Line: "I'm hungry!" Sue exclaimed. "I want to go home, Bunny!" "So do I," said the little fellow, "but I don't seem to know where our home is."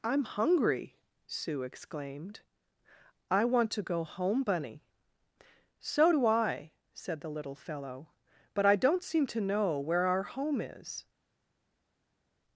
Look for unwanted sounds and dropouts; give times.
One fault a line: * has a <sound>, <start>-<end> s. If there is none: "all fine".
all fine